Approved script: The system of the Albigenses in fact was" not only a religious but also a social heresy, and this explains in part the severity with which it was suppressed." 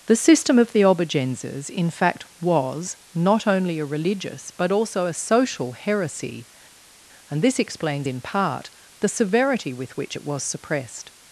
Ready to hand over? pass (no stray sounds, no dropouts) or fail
pass